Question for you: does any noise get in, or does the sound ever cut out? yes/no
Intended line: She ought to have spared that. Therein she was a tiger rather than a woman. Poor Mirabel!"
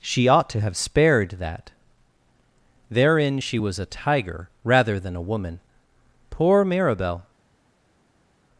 no